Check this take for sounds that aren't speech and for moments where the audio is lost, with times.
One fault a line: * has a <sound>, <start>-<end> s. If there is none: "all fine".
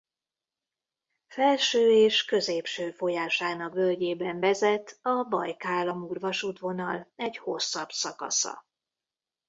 all fine